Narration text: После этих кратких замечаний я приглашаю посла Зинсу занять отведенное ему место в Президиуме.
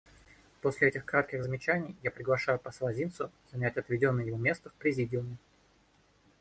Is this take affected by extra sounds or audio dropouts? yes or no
no